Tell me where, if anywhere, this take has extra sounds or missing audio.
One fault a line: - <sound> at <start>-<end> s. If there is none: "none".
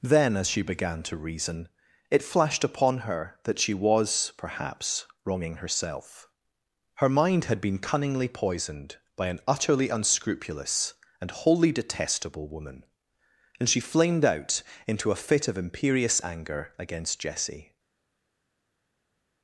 none